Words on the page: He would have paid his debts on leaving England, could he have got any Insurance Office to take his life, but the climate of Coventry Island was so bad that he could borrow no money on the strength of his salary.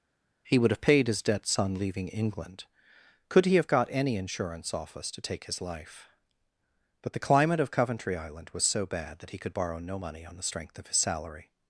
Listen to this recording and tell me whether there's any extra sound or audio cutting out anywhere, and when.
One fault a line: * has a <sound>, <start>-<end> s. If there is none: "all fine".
all fine